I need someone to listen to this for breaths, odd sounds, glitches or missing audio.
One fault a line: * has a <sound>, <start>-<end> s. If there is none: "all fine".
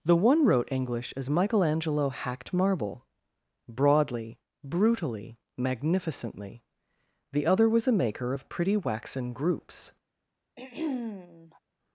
* has a throat clearing, 10.6-11.6 s